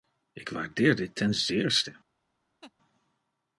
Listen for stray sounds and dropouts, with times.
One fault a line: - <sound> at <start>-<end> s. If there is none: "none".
- laugh at 2.6-2.7 s